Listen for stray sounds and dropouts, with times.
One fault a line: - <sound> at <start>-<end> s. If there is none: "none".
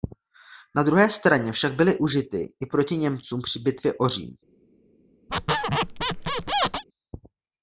- squeak at 5.3-6.8 s